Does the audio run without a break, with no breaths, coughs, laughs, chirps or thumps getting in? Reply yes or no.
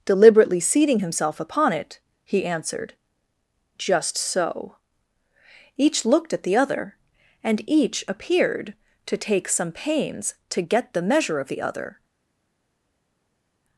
yes